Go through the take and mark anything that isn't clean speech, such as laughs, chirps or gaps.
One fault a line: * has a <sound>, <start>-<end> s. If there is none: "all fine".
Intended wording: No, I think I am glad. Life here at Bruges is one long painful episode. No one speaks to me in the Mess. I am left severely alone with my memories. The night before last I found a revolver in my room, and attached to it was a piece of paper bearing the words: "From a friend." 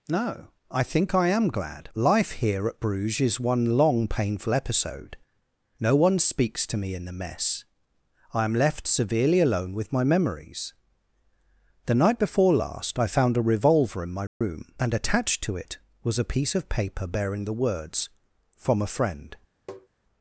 * has a dropout, 14.3-14.4 s
* has a tap, 19.7-19.9 s